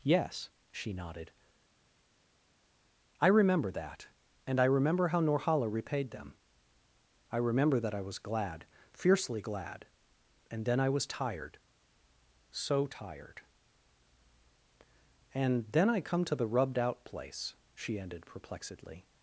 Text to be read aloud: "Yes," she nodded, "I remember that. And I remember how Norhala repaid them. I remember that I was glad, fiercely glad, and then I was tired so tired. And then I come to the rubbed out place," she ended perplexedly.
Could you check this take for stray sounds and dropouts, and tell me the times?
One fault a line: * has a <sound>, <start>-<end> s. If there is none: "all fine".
all fine